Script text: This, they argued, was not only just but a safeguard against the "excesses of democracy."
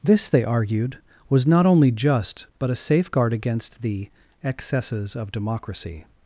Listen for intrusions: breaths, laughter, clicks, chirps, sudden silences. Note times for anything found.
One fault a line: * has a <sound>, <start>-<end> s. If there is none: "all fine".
all fine